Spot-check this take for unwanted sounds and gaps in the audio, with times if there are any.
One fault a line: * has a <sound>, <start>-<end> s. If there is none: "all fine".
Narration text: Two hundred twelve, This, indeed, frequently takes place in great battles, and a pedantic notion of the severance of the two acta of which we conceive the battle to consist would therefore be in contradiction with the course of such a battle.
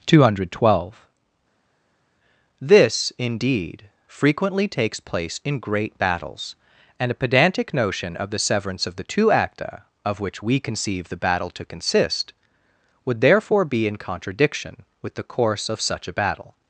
all fine